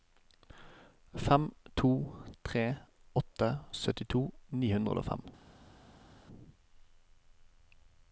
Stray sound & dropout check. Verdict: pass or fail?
pass